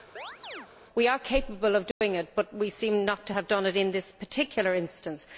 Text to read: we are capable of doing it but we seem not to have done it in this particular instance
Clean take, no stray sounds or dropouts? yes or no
no